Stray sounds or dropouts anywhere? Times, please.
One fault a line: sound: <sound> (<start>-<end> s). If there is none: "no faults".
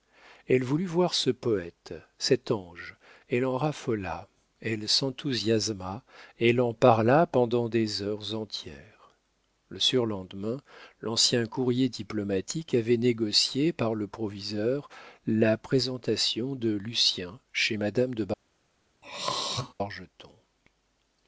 sound: throat clearing (19.0-19.7 s)